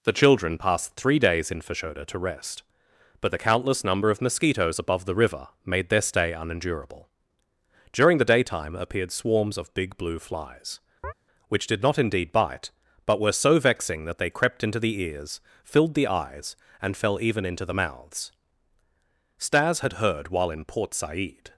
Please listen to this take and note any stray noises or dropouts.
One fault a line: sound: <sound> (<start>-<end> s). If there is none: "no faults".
sound: chirp (11.0-11.1 s)